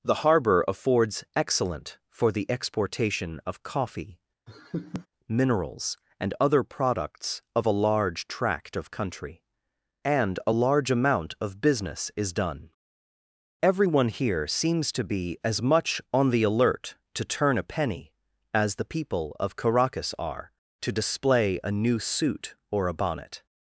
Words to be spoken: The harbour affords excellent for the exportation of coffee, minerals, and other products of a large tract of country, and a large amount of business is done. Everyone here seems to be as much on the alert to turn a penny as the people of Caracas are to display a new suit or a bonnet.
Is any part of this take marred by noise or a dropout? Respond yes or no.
yes